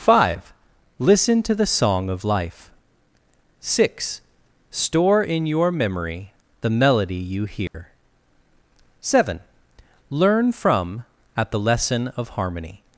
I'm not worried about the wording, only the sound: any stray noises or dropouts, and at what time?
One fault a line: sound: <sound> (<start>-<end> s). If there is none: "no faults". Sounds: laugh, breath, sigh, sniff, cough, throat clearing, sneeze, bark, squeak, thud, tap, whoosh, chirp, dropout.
sound: dropout (7.7-7.7 s)